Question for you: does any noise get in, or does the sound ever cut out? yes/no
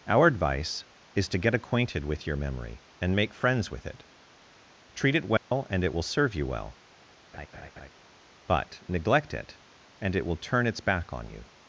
yes